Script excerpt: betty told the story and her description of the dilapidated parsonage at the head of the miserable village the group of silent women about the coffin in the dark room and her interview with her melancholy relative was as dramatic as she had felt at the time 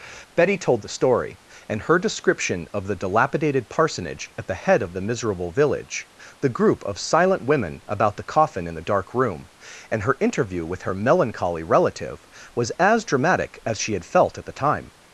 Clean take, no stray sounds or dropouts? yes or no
yes